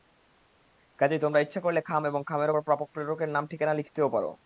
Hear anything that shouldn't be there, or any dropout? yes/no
no